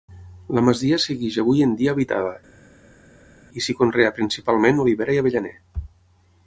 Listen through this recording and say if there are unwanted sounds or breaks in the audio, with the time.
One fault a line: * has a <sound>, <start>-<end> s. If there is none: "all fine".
all fine